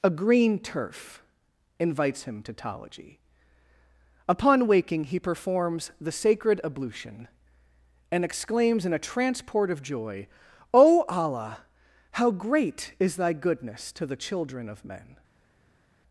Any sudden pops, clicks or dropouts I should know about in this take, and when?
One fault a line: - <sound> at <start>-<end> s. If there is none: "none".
none